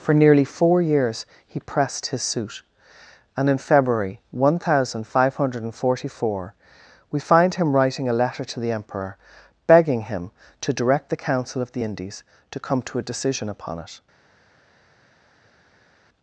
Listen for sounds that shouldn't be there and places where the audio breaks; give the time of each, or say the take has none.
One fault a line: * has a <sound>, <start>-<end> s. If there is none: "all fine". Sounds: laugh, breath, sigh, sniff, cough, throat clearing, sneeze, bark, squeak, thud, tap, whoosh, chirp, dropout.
all fine